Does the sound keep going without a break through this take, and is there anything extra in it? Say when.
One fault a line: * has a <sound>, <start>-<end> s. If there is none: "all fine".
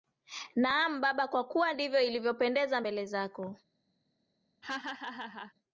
* has a laugh, 4.6-5.5 s